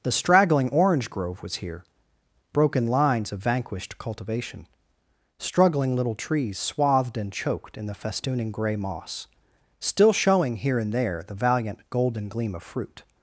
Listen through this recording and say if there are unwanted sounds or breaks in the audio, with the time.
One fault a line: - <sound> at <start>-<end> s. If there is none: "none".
none